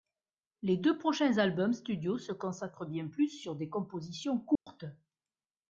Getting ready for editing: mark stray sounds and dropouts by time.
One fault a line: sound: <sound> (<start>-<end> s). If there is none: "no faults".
sound: dropout (4.6-4.7 s)